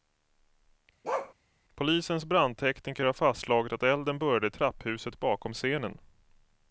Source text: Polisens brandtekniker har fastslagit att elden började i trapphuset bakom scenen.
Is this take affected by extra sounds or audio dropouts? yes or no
yes